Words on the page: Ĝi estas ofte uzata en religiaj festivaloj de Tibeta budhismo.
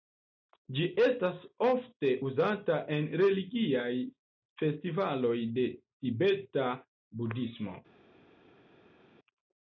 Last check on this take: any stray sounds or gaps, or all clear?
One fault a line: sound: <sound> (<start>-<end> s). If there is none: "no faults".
no faults